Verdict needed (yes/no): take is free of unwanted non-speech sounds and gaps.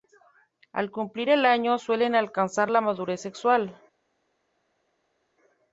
yes